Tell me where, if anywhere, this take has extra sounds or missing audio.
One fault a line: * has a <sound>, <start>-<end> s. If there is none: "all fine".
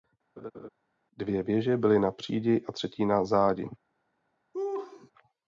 * has a laugh, 0.4-0.7 s
* has a laugh, 4.5-5.1 s